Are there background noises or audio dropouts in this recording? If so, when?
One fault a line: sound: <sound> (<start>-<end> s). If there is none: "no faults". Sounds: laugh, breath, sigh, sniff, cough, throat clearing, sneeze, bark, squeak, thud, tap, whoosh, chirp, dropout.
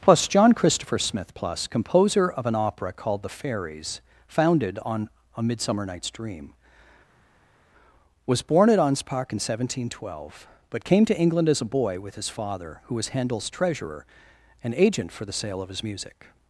no faults